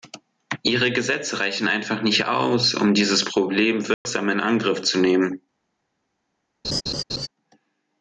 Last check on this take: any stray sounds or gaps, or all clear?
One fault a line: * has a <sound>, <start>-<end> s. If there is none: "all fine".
* has a dropout, 3.9-4.1 s
* has a laugh, 6.6-7.3 s